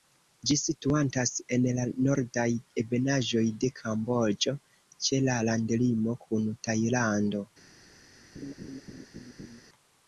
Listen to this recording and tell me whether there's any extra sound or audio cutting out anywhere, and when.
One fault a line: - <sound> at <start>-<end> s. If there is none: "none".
- laugh at 8.4-9.6 s